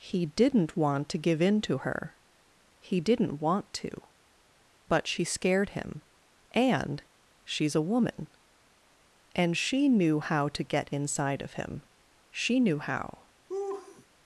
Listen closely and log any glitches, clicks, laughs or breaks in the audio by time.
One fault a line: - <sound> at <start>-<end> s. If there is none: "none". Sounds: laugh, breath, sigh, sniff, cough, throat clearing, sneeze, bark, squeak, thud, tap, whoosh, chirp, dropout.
- laugh at 13.5-14.1 s